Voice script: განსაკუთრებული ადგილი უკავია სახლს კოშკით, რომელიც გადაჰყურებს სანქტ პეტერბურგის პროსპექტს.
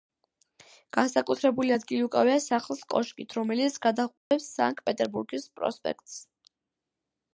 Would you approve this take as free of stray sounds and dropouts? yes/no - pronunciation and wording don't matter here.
no